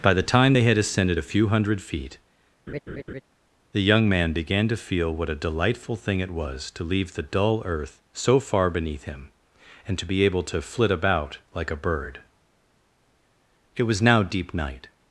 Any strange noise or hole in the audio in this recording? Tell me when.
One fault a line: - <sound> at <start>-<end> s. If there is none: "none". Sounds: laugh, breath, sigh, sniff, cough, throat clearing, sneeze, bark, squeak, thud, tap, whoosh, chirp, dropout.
- laugh at 2.7-3.2 s